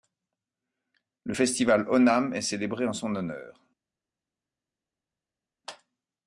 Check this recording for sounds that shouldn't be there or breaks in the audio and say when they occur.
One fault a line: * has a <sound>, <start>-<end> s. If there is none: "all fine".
all fine